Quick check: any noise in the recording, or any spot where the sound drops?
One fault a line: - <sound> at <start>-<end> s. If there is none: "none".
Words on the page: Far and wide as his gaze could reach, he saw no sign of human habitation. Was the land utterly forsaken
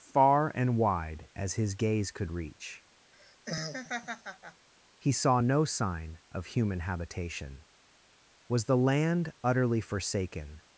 - laugh at 3.1-4.7 s